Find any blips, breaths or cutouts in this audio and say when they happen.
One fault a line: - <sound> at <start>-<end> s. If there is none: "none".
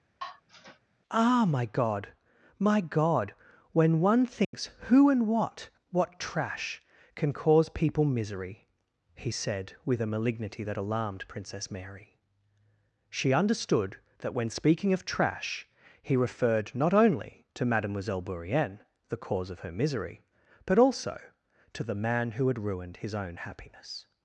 - sigh at 0.2-0.8 s
- dropout at 4.4-4.5 s